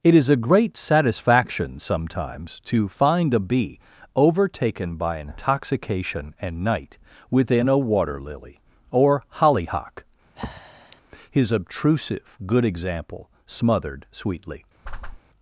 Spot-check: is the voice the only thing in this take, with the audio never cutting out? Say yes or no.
no